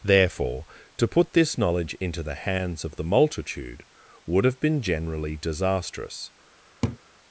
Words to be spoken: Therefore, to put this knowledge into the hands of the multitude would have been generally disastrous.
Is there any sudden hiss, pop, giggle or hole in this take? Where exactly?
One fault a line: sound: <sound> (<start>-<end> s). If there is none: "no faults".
sound: laugh (6.8-7.0 s)